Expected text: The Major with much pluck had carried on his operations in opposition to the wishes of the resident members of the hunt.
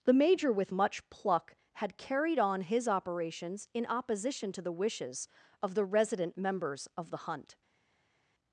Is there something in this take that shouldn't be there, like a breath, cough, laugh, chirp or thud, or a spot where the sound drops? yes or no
no